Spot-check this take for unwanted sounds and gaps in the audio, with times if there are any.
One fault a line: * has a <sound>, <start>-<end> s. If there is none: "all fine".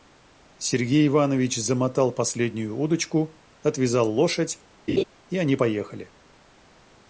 * has a laugh, 4.9-5.0 s